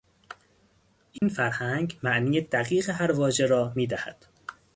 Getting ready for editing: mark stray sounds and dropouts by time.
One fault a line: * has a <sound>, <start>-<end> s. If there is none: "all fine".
* has a dropout, 1.2-1.2 s